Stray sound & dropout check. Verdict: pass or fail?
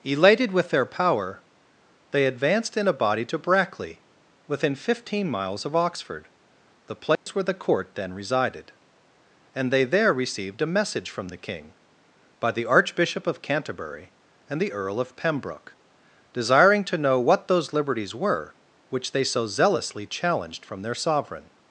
fail